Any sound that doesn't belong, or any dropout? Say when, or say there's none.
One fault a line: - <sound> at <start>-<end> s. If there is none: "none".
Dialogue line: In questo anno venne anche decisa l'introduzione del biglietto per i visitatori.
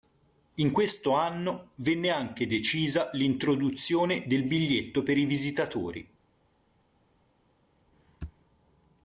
none